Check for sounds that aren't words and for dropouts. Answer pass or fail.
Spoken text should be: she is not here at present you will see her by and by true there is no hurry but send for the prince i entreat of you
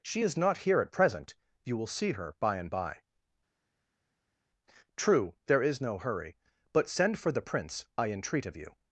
pass